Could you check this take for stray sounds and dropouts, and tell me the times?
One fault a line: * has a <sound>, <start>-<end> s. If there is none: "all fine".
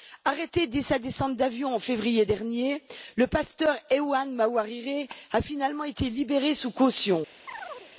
* has a chirp, 7.5-7.9 s